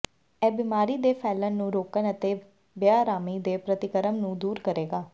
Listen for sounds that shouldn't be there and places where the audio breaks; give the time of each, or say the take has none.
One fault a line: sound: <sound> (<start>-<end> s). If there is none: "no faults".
no faults